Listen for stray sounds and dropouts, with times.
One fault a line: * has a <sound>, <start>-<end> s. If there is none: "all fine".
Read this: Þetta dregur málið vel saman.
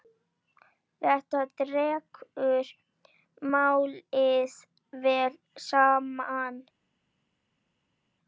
all fine